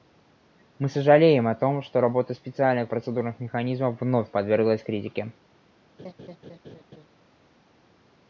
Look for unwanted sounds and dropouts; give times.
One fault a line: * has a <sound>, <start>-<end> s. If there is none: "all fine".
* has a laugh, 6.0-7.1 s